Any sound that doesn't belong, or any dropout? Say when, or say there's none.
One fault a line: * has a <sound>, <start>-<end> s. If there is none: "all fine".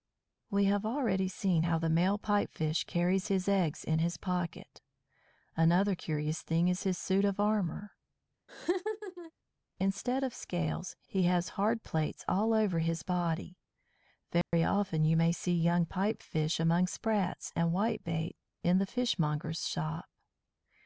* has a laugh, 8.5-9.3 s
* has a dropout, 14.4-14.5 s